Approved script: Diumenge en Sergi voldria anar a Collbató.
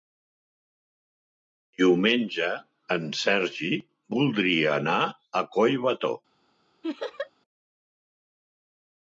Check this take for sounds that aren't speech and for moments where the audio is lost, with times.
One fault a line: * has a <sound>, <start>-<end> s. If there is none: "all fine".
* has a laugh, 6.8-7.3 s